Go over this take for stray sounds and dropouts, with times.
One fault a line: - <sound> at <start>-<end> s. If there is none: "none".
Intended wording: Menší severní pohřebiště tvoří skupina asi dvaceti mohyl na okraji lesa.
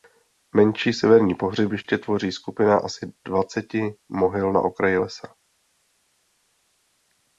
none